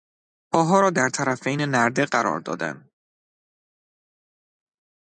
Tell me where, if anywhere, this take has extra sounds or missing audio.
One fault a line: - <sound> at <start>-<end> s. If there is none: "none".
none